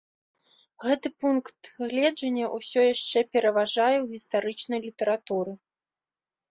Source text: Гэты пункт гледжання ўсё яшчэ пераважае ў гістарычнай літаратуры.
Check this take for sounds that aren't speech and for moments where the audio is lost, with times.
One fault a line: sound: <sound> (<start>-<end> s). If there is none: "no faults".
no faults